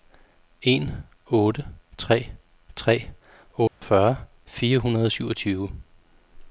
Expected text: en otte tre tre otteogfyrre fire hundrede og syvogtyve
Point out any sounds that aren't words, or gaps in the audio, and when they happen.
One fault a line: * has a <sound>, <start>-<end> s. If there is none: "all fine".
* has a dropout, 3.7-3.8 s